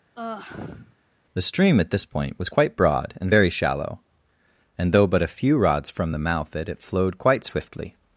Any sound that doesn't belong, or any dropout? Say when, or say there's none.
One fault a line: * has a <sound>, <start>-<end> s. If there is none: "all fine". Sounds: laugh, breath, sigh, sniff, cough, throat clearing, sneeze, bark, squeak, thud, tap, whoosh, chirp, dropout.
* has a sigh, 0.2-1.0 s